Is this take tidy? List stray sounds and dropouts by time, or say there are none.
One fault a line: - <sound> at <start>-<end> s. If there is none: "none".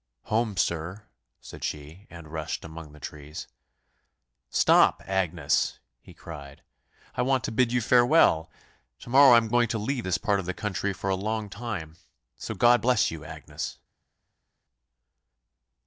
none